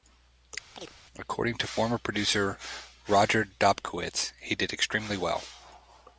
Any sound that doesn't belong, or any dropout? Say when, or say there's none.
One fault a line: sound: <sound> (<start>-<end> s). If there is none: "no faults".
sound: chirp (0.7-0.9 s)